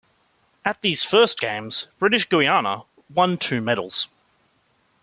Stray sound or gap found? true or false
false